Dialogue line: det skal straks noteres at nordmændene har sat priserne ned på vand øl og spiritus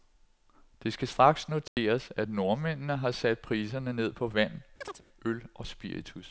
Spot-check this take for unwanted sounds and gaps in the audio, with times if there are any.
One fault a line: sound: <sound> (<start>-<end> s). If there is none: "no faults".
sound: dropout (1.7-1.8 s)
sound: chirp (4.8-5.0 s)